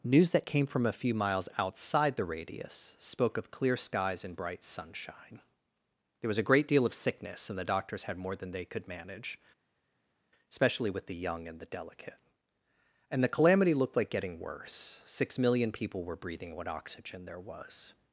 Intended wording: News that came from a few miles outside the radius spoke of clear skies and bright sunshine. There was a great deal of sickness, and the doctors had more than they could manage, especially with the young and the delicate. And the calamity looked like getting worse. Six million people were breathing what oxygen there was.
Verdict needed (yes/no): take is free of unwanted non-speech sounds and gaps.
yes